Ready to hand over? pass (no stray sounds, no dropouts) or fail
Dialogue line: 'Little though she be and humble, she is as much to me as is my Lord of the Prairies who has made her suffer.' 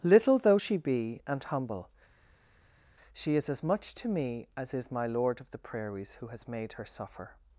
pass